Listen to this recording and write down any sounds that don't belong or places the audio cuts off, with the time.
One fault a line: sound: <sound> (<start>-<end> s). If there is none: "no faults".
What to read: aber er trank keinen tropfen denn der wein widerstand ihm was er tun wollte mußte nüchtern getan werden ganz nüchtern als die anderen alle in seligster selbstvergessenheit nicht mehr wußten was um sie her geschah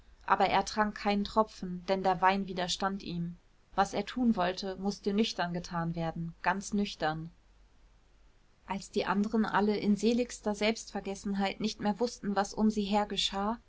no faults